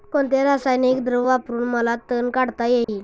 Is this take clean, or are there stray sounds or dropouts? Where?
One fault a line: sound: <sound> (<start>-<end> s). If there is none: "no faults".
sound: dropout (2.8-2.9 s)